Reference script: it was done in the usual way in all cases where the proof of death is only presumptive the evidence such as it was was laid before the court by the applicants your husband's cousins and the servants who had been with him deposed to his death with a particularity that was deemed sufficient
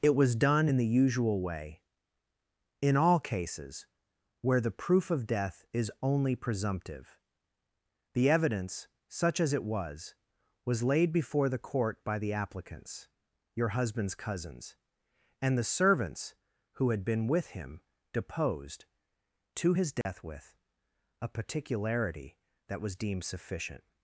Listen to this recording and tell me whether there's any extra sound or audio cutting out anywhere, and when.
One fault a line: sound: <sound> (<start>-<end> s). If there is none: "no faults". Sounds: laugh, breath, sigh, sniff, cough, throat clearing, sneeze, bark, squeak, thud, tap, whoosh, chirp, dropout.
sound: dropout (20.0-20.1 s)